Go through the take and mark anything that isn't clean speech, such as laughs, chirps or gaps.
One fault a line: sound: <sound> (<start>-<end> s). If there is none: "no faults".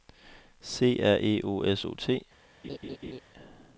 sound: laugh (2.6-3.2 s)